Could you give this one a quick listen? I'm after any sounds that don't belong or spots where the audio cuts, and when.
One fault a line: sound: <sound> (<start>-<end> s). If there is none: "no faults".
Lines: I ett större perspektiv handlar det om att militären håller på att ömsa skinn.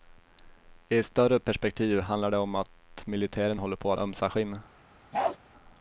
sound: bark (5.1-5.4 s)